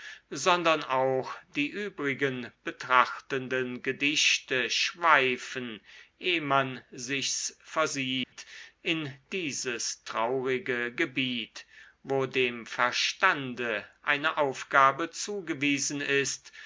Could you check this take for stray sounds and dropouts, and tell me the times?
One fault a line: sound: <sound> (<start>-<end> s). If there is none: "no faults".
sound: dropout (8.2-8.3 s)